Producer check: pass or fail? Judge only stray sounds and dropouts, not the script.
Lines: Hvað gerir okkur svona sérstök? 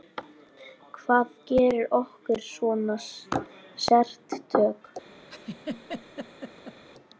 fail